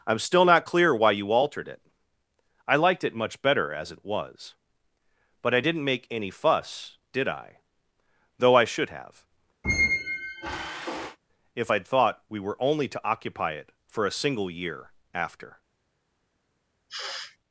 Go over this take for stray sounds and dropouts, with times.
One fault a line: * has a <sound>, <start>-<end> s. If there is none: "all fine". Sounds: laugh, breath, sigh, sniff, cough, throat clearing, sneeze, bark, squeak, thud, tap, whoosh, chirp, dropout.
* has a squeak, 9.6-11.2 s
* has a sniff, 16.9-17.4 s